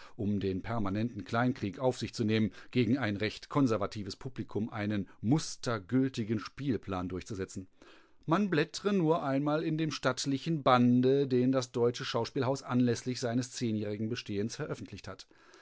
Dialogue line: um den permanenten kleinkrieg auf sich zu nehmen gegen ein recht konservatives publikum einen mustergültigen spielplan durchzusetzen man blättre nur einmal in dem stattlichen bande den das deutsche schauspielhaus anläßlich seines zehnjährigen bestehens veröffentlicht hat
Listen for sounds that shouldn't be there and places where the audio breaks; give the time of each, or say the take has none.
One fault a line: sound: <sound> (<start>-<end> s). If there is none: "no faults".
no faults